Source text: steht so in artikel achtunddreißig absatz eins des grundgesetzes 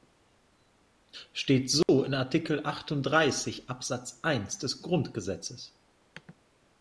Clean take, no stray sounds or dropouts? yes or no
no